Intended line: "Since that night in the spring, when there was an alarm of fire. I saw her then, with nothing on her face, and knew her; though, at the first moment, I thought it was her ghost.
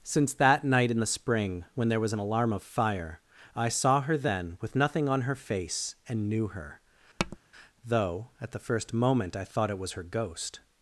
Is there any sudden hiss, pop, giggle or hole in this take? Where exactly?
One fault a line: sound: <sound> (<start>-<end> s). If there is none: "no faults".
sound: tap (7.2-7.4 s)